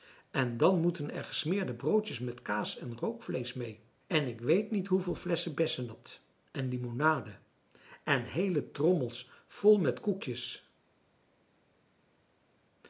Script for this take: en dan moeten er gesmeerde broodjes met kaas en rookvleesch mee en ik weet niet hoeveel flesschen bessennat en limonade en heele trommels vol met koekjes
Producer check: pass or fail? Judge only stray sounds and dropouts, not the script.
pass